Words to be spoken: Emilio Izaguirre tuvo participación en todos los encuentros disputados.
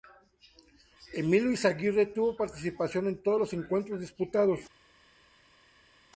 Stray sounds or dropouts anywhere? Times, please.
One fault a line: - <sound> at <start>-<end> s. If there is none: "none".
none